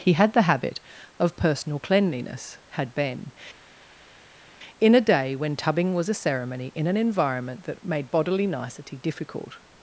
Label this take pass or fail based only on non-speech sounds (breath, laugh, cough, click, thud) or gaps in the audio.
pass